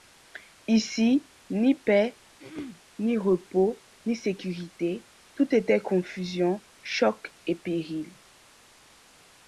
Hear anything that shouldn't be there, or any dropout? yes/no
yes